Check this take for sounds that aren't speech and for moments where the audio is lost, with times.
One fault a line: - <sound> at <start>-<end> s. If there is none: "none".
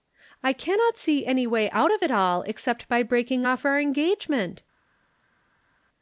none